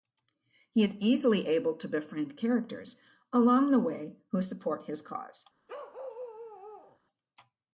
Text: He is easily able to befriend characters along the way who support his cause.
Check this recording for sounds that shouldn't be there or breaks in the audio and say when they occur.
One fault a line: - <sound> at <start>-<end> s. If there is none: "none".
- bark at 5.7-7.0 s